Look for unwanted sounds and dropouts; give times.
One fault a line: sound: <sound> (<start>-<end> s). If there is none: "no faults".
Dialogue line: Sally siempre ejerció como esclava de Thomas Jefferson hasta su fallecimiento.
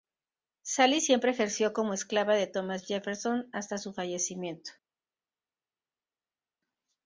no faults